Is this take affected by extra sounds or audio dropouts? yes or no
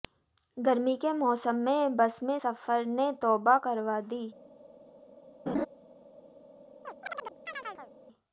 yes